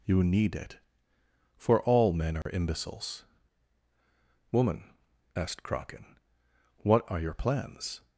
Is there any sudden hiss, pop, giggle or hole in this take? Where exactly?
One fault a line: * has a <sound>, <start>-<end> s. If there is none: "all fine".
* has a dropout, 2.4-2.5 s